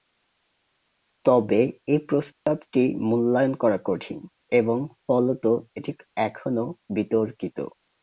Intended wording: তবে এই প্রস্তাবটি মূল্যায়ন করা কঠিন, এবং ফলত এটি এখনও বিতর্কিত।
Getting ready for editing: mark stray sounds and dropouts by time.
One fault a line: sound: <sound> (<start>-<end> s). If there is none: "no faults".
sound: dropout (2.3-2.5 s)